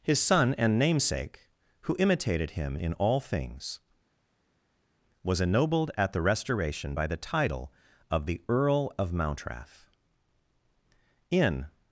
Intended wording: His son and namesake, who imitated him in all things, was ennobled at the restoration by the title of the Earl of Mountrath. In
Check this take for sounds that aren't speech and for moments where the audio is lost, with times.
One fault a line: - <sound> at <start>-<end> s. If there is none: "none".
none